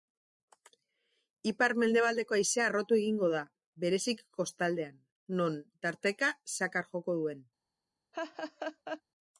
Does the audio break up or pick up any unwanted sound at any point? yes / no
yes